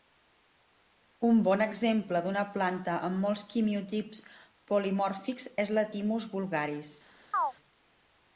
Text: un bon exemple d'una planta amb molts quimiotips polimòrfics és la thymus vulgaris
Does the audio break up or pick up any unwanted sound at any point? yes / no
yes